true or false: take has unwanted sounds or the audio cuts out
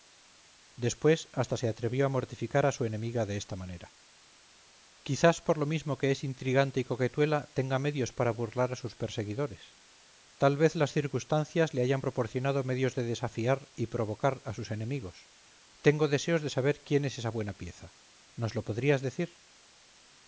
false